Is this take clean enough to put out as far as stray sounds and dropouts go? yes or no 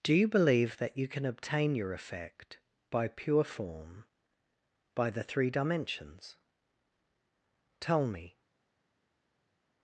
yes